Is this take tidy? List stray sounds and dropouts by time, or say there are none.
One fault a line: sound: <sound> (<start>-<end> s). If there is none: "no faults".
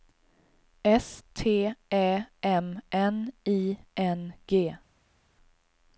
no faults